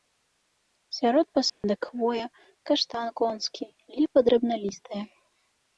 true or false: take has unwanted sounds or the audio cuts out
true